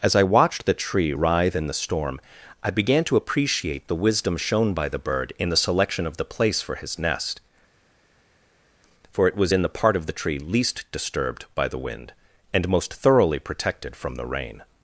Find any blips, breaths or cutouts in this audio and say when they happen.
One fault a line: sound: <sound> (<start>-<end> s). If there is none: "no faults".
no faults